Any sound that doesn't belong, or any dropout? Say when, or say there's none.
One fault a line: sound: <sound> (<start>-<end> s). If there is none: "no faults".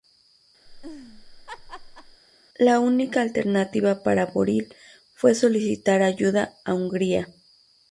sound: laugh (0.7-2.2 s)